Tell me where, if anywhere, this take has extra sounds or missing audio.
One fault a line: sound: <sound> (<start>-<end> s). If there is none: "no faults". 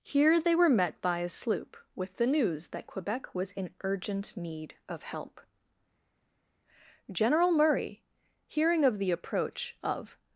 no faults